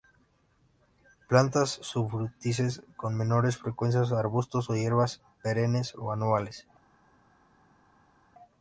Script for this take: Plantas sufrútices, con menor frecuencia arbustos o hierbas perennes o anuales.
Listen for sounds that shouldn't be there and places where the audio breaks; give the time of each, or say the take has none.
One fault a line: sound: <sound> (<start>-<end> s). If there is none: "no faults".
no faults